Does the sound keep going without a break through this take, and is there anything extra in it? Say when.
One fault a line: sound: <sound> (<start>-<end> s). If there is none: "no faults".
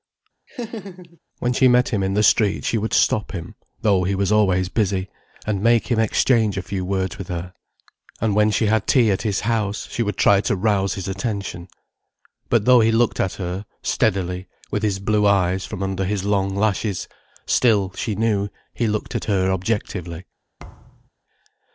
sound: laugh (0.5-1.2 s)
sound: thud (20.6-21.1 s)